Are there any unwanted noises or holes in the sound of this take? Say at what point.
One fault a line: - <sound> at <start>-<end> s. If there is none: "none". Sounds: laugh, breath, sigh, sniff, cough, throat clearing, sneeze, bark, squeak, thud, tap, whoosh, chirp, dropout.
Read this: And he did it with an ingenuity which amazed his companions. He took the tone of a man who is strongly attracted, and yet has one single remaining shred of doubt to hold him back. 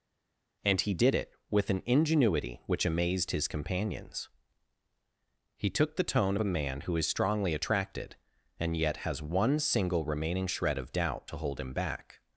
none